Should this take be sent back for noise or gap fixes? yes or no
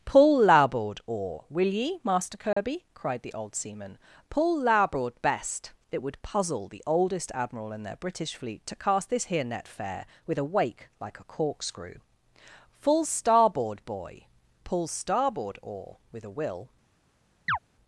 yes